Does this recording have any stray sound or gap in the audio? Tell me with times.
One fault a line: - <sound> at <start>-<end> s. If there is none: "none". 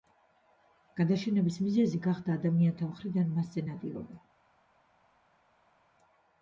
none